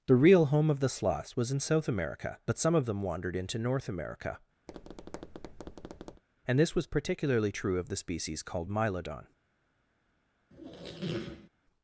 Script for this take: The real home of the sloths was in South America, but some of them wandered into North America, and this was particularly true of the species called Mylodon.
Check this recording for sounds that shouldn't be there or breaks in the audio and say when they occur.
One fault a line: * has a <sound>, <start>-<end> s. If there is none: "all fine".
* has a tap, 4.7-6.2 s
* has a squeak, 10.5-11.5 s